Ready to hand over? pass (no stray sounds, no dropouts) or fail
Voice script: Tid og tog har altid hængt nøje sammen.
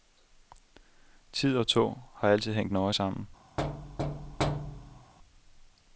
fail